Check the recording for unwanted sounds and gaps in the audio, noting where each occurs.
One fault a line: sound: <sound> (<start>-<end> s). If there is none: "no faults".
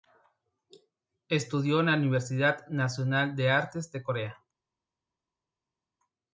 no faults